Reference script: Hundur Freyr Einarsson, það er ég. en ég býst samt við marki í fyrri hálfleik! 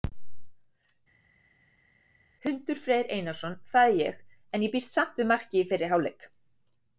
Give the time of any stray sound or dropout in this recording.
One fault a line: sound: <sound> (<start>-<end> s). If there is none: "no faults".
no faults